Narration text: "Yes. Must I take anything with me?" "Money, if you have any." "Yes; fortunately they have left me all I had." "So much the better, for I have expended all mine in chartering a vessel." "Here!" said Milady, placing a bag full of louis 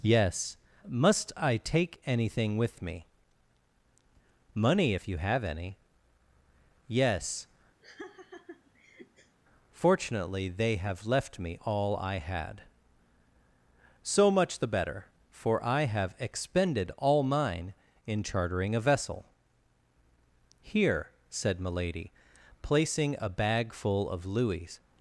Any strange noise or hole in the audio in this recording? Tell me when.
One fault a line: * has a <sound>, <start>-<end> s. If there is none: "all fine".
* has a laugh, 7.8-9.4 s